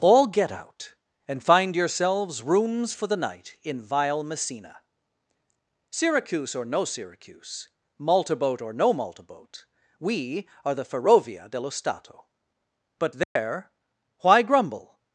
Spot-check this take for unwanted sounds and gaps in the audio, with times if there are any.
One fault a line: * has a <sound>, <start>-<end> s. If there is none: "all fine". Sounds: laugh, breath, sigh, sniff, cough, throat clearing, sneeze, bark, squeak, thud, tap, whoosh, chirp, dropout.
* has a dropout, 13.2-13.4 s